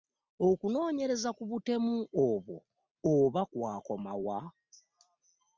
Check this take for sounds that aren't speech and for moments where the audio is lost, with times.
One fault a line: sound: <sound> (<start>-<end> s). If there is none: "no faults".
no faults